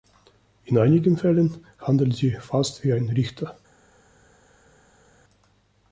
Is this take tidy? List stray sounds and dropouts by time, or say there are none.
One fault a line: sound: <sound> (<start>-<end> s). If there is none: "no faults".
no faults